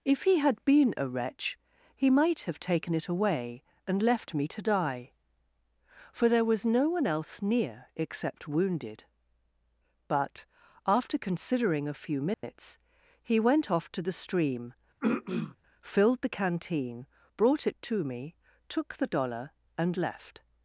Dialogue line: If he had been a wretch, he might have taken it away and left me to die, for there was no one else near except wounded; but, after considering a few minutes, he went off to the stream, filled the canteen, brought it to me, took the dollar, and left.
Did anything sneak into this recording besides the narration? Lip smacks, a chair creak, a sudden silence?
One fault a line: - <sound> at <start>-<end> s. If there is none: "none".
- dropout at 12.3-12.4 s
- throat clearing at 15.0-15.6 s